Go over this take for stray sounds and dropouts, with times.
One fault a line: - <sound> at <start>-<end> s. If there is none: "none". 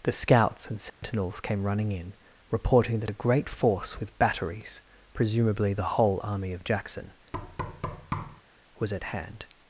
- dropout at 0.9-1.0 s
- thud at 7.3-8.4 s